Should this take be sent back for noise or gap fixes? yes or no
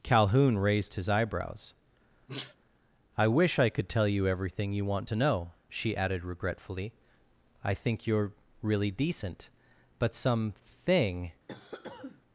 yes